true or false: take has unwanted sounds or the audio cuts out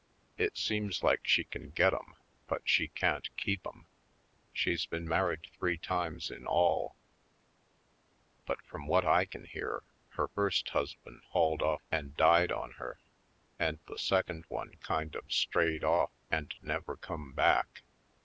false